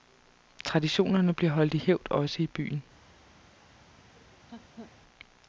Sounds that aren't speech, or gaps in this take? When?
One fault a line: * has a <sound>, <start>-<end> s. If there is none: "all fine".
* has a laugh, 4.1-5.0 s